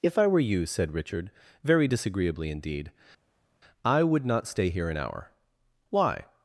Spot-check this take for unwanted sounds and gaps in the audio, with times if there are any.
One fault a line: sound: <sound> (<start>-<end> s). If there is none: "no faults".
no faults